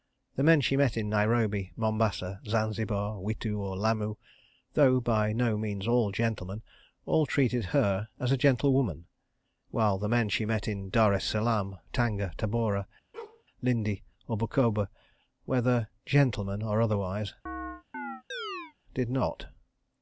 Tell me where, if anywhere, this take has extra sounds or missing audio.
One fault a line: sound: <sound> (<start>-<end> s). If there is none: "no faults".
sound: bark (13.1-13.4 s)
sound: chirp (17.5-18.7 s)